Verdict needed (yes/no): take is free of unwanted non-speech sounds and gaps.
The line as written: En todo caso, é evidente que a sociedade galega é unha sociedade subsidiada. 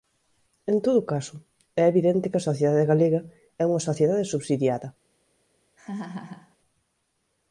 no